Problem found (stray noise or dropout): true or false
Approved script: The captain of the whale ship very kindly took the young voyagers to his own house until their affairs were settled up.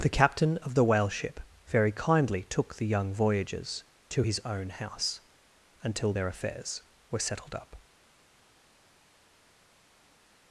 false